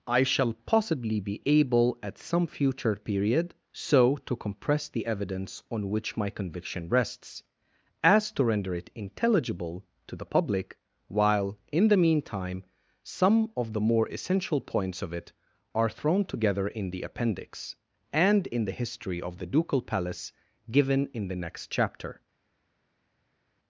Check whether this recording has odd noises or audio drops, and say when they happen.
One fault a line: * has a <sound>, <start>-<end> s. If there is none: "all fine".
all fine